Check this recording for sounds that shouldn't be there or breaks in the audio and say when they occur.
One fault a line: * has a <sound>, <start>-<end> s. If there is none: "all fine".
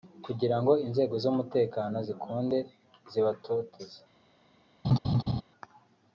* has a laugh, 4.8-5.4 s